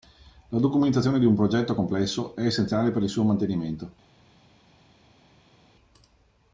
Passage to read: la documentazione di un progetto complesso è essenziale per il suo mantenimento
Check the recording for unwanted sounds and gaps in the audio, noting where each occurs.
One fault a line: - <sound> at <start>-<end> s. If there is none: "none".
none